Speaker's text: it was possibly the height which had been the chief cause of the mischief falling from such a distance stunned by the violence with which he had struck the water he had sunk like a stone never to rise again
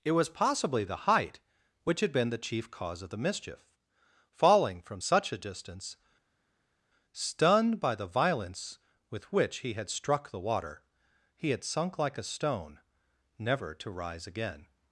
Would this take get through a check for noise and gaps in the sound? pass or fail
pass